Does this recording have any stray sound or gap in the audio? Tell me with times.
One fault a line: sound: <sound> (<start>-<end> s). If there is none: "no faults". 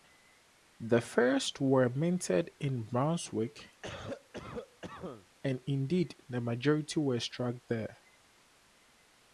sound: cough (3.8-5.3 s)